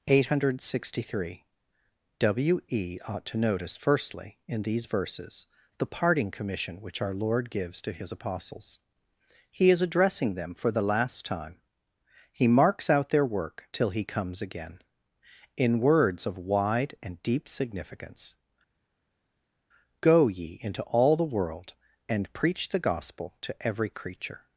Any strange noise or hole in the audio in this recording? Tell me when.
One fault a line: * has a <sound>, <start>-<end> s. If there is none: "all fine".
all fine